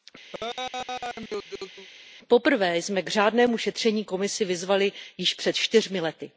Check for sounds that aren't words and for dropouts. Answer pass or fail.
fail